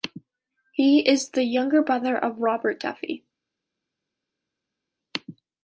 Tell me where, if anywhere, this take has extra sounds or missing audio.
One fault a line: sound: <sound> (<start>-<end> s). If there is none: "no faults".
no faults